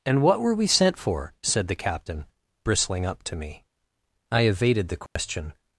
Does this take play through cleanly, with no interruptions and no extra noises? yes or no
no